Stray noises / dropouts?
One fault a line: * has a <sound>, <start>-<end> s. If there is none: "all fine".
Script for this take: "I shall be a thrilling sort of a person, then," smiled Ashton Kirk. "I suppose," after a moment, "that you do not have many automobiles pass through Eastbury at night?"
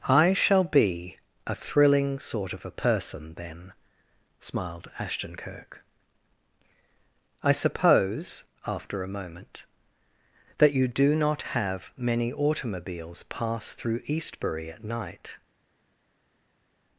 all fine